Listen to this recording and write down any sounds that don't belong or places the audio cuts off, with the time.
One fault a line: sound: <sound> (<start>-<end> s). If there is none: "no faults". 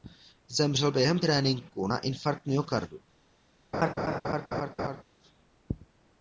sound: laugh (3.7-5.0 s)